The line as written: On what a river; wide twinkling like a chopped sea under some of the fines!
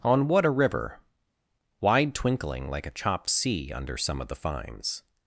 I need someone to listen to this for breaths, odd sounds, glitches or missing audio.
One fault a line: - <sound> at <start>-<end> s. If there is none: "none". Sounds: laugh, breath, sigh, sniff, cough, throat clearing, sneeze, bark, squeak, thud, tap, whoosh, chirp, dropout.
none